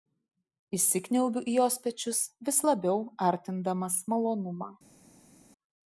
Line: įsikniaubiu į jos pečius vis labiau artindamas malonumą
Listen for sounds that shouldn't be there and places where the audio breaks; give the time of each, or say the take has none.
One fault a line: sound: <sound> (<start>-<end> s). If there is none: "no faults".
no faults